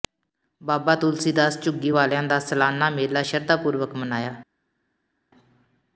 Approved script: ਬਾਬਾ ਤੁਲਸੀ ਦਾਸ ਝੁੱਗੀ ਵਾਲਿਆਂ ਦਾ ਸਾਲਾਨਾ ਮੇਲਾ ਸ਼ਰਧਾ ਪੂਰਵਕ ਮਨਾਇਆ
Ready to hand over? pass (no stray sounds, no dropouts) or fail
pass